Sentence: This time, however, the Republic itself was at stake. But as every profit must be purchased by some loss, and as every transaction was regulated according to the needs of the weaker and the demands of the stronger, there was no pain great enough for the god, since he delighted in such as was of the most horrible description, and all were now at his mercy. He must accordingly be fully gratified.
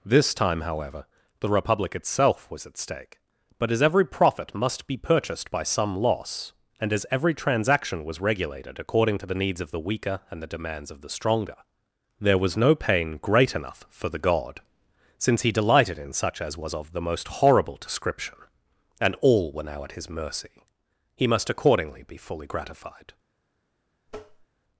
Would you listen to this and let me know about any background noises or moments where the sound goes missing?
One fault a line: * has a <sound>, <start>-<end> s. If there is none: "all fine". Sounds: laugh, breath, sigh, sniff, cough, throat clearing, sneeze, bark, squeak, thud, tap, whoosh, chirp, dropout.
* has a tap, 24.1-24.5 s